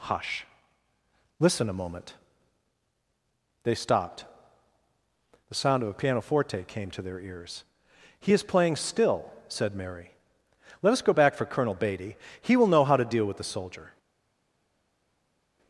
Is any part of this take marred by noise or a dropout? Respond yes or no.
no